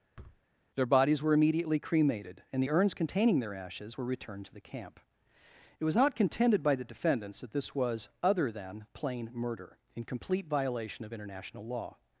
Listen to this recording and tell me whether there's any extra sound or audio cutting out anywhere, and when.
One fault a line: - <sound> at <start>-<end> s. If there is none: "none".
- thud at 0.2-0.4 s